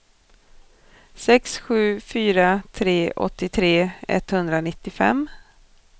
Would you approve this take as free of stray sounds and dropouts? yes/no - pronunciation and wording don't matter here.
yes